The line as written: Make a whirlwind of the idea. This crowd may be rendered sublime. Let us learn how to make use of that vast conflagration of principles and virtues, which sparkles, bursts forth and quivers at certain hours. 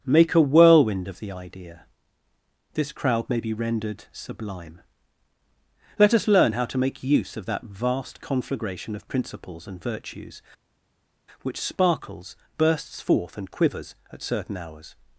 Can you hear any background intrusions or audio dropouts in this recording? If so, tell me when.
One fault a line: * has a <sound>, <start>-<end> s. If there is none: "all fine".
all fine